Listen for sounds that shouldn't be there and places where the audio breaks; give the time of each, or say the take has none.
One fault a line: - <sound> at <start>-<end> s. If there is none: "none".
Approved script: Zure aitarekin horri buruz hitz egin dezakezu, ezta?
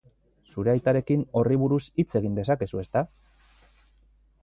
none